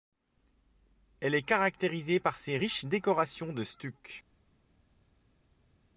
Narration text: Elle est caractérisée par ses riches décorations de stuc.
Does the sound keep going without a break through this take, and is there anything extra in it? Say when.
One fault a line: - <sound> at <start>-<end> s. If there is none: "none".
none